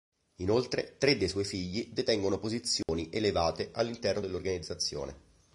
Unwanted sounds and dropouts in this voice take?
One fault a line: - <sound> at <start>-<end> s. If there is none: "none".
- dropout at 2.8-2.9 s